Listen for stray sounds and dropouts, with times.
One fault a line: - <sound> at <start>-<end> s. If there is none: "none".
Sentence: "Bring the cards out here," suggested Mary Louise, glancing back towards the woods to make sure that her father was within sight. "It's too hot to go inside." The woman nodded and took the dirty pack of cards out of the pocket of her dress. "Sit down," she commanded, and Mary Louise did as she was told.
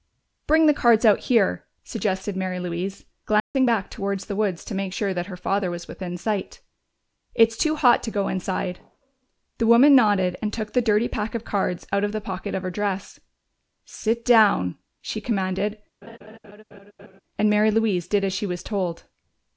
- dropout at 3.4-3.5 s
- laugh at 16.0-17.2 s